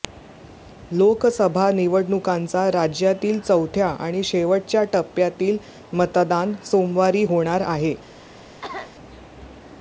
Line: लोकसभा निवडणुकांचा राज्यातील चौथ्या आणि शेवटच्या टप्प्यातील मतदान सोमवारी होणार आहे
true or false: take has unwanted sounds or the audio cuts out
true